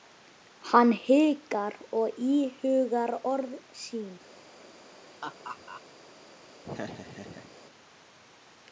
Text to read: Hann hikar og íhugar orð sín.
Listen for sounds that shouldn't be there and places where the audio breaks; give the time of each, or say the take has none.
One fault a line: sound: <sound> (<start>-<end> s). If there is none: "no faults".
sound: laugh (5.2-5.8 s)
sound: laugh (6.6-7.5 s)